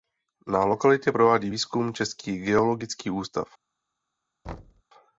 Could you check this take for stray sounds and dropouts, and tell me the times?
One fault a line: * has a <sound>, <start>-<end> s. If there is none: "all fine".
* has a thud, 4.4-4.8 s